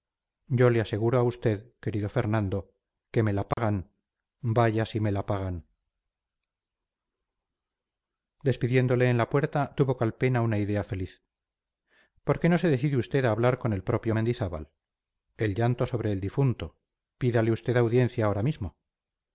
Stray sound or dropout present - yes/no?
yes